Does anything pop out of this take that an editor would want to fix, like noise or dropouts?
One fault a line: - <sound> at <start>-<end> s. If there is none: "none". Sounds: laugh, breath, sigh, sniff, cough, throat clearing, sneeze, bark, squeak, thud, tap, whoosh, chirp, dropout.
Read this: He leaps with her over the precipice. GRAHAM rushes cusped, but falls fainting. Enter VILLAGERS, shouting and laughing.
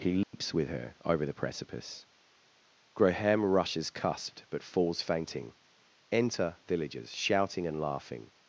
- dropout at 0.2-0.3 s